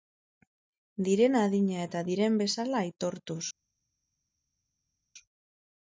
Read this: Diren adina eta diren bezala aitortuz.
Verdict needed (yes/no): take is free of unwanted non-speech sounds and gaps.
yes